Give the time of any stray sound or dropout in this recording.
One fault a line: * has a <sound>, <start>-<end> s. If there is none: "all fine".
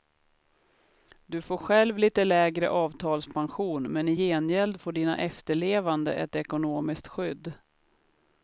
all fine